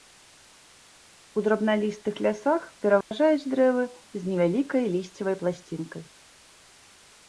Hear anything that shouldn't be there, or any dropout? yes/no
yes